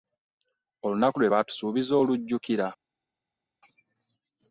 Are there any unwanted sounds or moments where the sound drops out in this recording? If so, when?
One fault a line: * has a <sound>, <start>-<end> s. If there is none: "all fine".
all fine